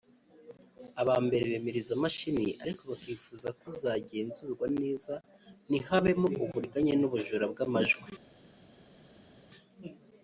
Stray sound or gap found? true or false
false